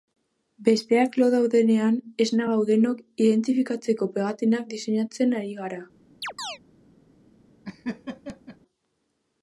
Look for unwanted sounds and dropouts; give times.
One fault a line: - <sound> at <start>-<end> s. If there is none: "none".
- chirp at 6.2-6.6 s
- laugh at 7.6-8.6 s